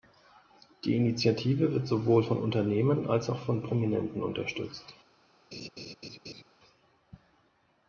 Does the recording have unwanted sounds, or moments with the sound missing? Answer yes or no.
yes